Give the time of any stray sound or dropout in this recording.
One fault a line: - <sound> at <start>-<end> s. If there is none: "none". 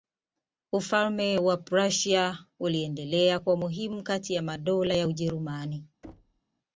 - thud at 6.0-6.4 s